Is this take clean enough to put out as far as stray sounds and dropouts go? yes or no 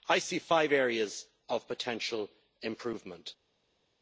yes